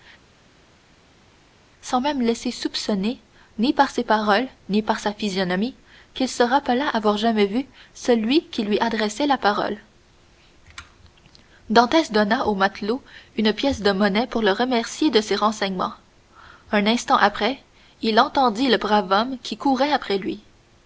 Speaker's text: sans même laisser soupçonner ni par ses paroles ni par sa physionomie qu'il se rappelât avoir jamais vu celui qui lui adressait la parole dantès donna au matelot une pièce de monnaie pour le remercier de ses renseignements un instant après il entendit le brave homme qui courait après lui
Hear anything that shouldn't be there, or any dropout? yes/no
no